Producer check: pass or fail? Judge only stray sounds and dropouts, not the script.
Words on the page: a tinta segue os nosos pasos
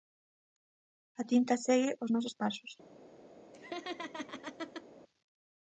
fail